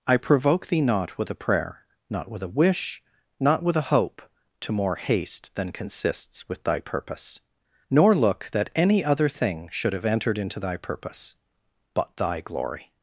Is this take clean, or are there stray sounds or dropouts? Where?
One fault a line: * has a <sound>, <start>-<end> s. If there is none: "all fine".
all fine